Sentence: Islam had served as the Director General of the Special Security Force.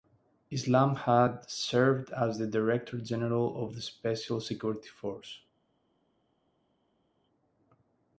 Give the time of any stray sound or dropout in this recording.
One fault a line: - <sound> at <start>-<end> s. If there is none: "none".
none